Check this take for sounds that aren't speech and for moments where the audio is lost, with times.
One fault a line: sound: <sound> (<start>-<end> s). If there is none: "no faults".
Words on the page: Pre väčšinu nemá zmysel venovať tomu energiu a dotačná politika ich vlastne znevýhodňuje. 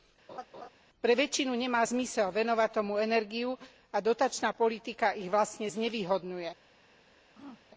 sound: laugh (0.3-0.7 s)
sound: throat clearing (7.3-7.6 s)